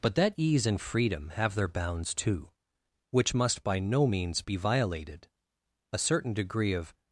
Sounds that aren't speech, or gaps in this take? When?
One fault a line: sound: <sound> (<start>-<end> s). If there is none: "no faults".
no faults